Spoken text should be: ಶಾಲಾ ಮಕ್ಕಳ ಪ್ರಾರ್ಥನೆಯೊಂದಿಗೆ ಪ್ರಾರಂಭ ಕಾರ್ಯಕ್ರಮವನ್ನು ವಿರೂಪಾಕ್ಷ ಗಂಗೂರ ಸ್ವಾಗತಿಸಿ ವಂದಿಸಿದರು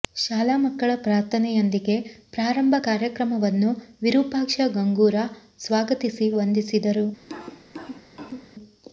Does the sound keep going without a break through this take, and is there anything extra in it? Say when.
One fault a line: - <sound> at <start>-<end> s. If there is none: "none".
- cough at 7.2-8.5 s